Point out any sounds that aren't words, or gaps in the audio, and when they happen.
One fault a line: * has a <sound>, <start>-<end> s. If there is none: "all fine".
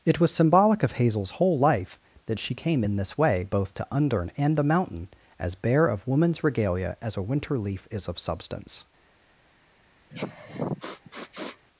* has a sniff, 10.1-11.7 s